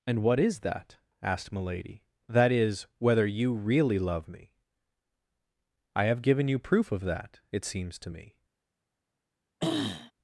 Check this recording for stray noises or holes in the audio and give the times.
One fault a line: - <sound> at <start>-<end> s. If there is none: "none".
- throat clearing at 9.6-10.1 s